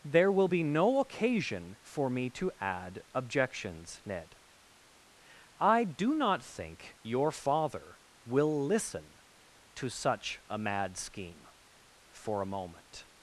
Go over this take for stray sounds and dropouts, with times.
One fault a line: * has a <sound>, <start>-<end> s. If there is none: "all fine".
all fine